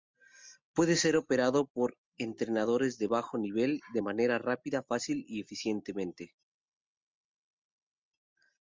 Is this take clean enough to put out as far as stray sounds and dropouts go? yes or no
yes